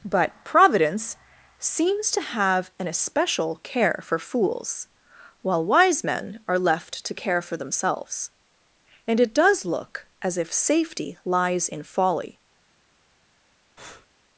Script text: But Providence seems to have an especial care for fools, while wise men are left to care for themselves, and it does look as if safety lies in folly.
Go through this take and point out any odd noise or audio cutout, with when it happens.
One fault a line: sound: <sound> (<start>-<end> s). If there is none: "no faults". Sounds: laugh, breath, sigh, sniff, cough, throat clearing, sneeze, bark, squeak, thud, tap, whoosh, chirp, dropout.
sound: breath (13.8-14.1 s)